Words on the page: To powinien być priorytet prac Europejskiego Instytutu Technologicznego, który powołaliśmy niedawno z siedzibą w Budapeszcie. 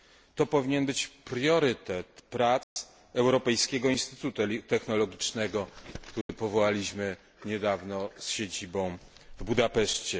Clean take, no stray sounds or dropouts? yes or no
no